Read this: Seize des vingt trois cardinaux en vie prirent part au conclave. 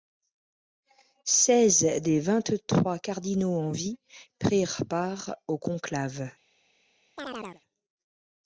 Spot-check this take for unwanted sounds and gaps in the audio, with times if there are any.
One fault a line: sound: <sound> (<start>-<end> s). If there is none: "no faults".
sound: chirp (7.2-7.6 s)